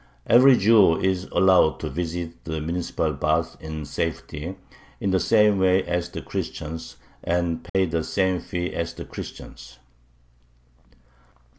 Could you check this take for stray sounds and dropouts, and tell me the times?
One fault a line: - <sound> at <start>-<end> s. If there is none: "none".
- dropout at 7.7-7.7 s